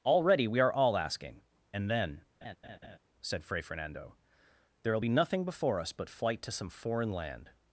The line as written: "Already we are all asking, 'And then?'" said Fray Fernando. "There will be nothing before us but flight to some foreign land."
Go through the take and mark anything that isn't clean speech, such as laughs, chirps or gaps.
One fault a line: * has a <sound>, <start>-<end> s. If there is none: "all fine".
* has a laugh, 2.4-3.0 s